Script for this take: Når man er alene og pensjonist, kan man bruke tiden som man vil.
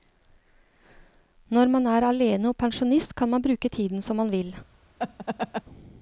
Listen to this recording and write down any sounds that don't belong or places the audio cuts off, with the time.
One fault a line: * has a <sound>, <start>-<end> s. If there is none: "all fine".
* has a laugh, 5.0-5.6 s